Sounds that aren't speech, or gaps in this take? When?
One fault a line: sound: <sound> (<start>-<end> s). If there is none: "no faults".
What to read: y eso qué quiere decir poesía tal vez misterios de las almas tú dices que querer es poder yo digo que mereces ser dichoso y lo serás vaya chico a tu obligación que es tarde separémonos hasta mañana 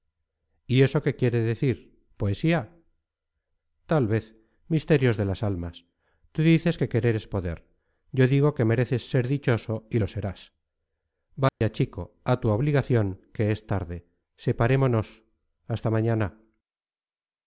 sound: dropout (11.5-11.6 s)